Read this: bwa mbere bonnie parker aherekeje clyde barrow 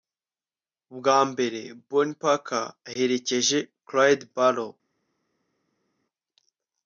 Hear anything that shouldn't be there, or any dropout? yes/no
no